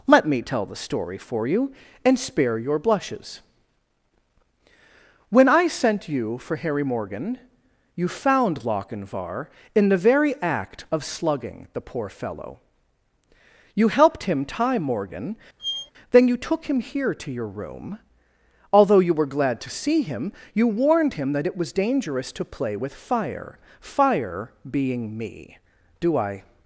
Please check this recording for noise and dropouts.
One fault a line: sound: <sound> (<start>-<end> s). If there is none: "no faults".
sound: squeak (15.6-15.9 s)